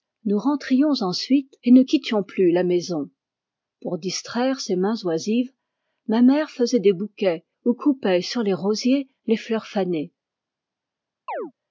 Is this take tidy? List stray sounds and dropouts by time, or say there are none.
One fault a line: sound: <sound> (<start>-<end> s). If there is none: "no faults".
sound: chirp (11.3-11.5 s)